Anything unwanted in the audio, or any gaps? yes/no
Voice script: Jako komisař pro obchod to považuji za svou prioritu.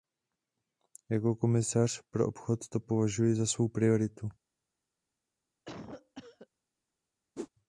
yes